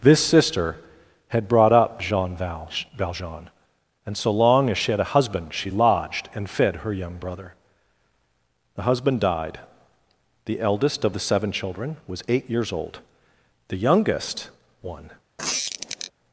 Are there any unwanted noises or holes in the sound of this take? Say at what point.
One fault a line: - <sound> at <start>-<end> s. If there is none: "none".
- squeak at 15.4-16.1 s